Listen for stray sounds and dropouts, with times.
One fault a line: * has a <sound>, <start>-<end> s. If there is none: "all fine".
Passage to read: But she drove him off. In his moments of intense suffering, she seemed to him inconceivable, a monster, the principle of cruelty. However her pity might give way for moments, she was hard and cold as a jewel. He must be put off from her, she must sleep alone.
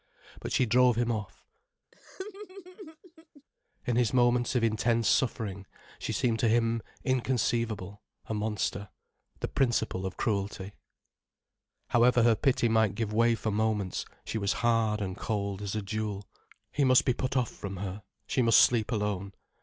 * has a laugh, 1.9-3.4 s